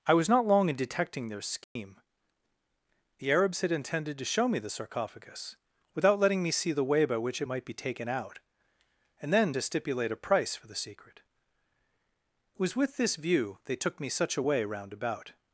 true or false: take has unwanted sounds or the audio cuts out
true